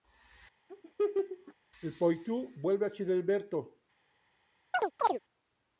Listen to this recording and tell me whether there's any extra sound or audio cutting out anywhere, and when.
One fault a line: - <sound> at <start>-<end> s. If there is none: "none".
- laugh at 0.7-1.5 s
- chirp at 4.7-5.2 s